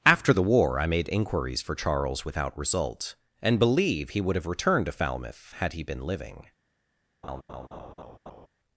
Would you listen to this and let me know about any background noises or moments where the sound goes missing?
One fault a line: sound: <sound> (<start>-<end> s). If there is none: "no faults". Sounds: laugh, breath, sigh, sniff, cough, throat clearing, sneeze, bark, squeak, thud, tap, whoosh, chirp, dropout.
sound: laugh (7.2-8.5 s)